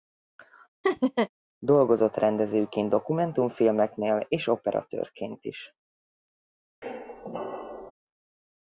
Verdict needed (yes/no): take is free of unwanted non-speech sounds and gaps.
no